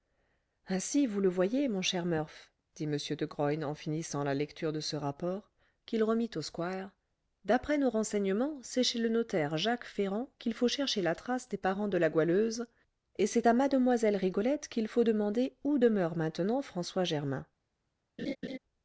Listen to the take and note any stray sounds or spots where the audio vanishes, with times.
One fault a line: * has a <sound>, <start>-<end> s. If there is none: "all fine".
* has a laugh, 18.2-18.6 s